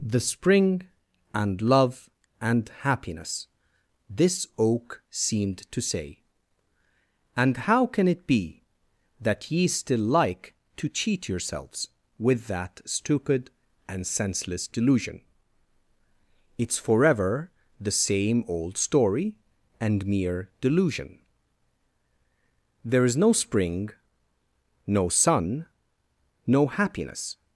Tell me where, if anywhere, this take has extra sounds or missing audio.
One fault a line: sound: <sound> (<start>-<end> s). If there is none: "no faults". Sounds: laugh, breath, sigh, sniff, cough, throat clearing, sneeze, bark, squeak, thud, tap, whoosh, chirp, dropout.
no faults